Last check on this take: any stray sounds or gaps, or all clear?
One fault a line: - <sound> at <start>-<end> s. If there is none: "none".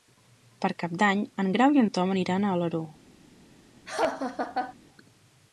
- laugh at 3.9-4.7 s